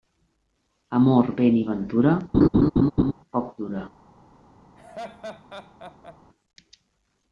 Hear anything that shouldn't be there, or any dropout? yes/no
yes